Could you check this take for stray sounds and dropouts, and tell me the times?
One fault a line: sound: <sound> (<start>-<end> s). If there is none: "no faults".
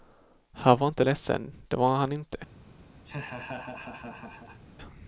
sound: laugh (3.1-4.6 s)